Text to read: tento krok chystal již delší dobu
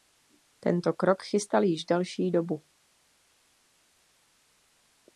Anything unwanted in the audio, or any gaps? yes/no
no